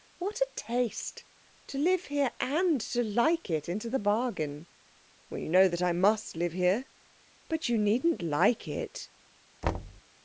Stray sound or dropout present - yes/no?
yes